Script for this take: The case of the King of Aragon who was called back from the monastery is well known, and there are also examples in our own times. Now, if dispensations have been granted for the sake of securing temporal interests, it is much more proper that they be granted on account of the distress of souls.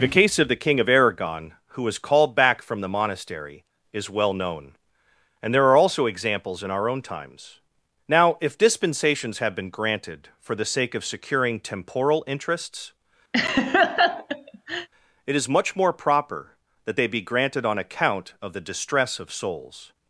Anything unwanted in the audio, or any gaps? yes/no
yes